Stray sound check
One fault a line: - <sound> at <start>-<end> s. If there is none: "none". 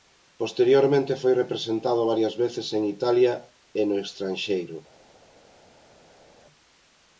none